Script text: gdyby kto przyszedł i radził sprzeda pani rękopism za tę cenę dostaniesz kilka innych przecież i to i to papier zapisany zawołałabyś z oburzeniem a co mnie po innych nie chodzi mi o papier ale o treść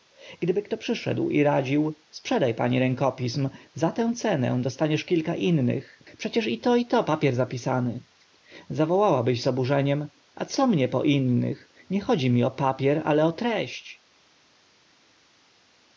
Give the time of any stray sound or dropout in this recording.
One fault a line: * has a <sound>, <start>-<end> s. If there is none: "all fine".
all fine